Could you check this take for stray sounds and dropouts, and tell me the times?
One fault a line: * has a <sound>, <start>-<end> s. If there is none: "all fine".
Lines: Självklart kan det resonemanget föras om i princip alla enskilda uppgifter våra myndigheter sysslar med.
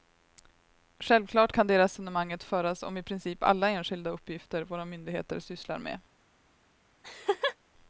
* has a laugh, 7.0-7.6 s